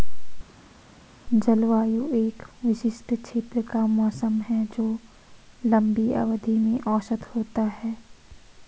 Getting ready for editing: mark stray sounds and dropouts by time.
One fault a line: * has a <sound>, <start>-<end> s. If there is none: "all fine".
all fine